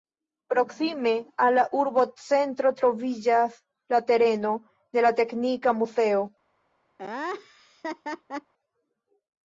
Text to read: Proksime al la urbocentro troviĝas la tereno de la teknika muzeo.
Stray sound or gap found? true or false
true